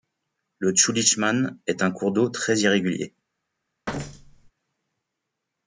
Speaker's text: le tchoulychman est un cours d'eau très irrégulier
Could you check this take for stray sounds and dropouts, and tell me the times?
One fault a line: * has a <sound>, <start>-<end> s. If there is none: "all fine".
* has a thud, 3.9-4.5 s